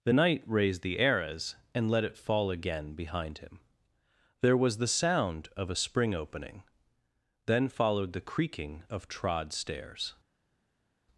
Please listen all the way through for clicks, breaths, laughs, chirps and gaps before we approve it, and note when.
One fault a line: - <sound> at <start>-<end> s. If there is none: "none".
none